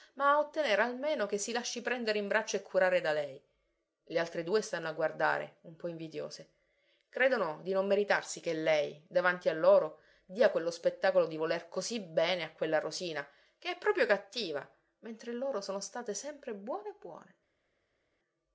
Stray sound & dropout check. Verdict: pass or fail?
pass